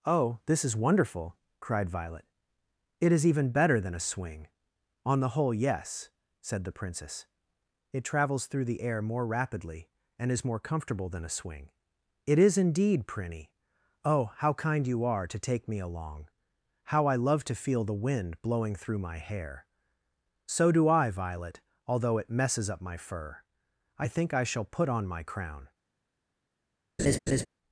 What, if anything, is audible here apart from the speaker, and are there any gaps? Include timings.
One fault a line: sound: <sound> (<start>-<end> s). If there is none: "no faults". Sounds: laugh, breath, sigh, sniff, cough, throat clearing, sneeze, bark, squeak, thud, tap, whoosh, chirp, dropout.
sound: laugh (27.0-27.5 s)